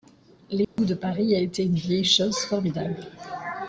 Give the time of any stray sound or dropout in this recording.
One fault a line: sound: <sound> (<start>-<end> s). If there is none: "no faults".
sound: dropout (0.6-0.8 s)